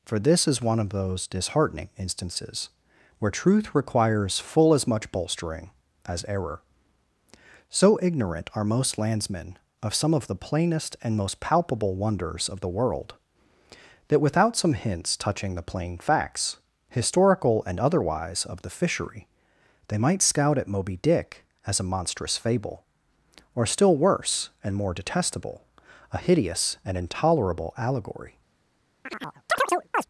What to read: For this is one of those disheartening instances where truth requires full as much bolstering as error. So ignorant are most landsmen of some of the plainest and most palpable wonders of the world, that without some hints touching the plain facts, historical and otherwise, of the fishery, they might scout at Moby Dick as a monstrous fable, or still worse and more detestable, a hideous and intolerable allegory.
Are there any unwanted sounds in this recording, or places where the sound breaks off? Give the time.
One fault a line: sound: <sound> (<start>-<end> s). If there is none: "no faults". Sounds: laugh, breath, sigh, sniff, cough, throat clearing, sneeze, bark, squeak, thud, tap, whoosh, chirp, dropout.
sound: chirp (29.1-30.1 s)